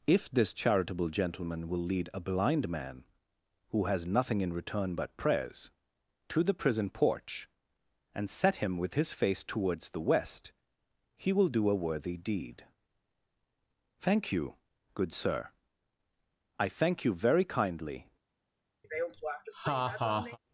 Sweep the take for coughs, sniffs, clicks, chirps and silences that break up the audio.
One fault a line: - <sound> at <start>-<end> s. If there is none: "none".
- laugh at 18.8-20.4 s